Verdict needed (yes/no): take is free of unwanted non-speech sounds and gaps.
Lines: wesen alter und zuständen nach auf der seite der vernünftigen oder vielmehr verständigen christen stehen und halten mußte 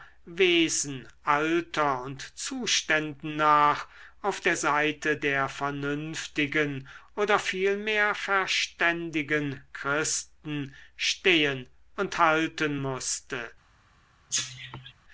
no